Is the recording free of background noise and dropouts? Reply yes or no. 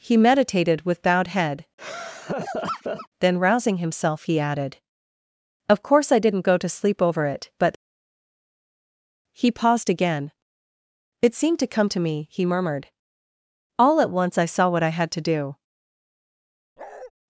no